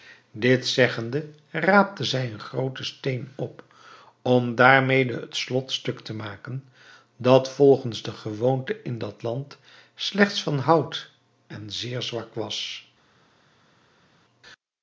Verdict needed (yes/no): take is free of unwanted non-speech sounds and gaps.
yes